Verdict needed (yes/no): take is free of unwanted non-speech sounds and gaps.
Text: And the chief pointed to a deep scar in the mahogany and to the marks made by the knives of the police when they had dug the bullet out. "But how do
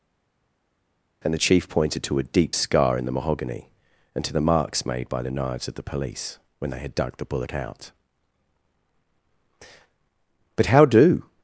yes